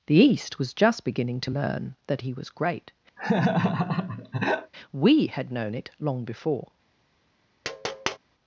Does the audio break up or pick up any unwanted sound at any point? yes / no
yes